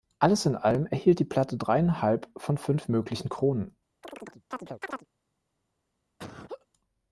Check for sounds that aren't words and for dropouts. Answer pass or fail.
fail